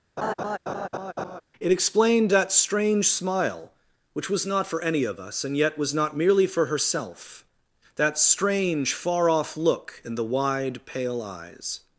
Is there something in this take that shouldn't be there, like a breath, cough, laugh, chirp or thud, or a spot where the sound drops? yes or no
yes